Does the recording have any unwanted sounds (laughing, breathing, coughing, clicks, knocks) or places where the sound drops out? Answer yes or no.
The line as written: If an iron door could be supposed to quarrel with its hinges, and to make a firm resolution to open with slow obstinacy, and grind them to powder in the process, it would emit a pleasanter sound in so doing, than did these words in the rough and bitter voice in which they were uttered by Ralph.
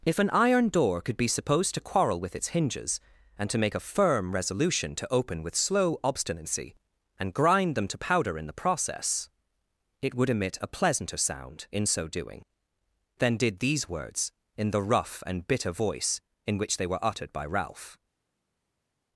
no